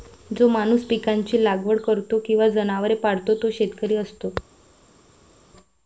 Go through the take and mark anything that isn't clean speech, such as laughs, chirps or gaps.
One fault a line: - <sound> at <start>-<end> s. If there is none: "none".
none